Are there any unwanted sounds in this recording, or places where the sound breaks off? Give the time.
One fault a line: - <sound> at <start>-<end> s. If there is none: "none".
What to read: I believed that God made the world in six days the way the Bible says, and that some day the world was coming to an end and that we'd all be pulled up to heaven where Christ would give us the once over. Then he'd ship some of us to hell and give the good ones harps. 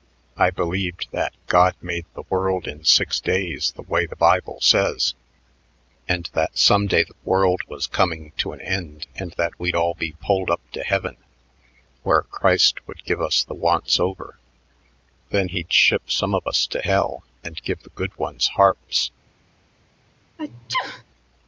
- sneeze at 20.4-21.0 s